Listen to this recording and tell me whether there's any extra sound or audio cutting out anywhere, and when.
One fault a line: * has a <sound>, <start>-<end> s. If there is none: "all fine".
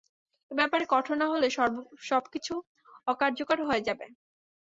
all fine